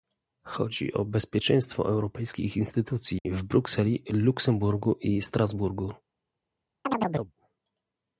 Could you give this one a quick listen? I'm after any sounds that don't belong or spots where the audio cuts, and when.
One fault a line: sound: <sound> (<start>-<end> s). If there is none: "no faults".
sound: dropout (3.2-3.3 s)
sound: chirp (6.8-7.3 s)